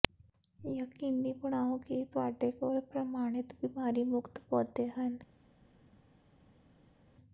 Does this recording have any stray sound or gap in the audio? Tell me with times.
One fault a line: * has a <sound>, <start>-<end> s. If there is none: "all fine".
all fine